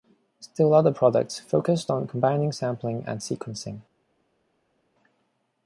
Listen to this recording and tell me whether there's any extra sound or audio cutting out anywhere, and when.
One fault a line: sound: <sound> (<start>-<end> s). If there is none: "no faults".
no faults